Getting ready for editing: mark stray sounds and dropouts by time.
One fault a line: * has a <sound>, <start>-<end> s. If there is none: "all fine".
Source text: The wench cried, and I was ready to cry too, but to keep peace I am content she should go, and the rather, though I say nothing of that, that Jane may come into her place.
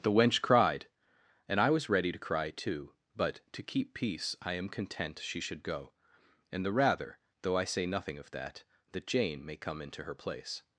all fine